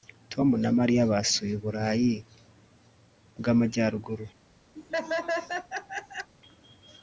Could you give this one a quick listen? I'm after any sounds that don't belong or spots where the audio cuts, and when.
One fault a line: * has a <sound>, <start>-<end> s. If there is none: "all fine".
* has a laugh, 4.8-6.3 s